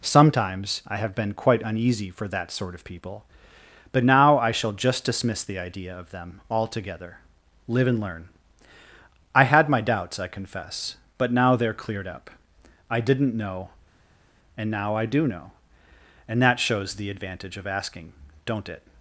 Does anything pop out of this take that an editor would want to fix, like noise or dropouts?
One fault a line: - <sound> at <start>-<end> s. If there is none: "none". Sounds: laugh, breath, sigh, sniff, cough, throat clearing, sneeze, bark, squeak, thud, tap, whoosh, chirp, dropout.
none